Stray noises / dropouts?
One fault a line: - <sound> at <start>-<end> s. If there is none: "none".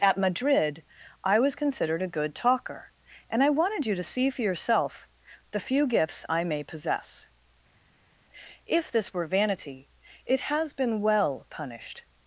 none